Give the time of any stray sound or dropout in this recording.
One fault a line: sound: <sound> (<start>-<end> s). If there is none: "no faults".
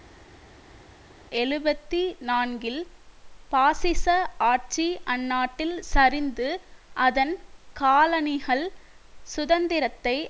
no faults